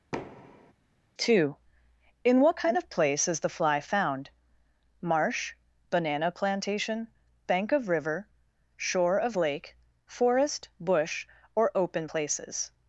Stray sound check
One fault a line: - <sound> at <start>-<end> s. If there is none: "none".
- thud at 0.1-0.7 s